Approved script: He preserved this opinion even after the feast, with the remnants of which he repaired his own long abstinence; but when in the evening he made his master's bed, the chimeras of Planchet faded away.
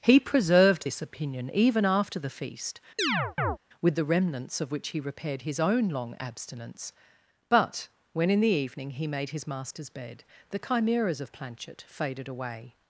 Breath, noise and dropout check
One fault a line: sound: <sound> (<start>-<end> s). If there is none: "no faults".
sound: chirp (3.0-3.6 s)